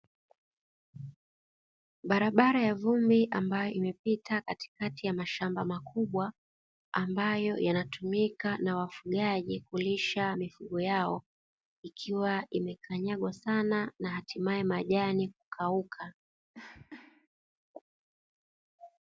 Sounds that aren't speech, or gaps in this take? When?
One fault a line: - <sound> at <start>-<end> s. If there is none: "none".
- cough at 16.5-17.3 s